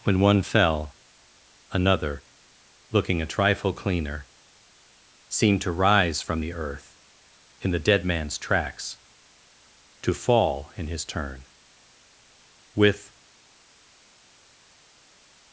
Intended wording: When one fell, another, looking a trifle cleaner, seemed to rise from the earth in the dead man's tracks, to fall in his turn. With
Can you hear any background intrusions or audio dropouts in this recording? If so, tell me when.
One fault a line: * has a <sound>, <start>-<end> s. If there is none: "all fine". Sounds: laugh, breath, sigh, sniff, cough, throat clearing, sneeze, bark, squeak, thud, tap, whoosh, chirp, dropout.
all fine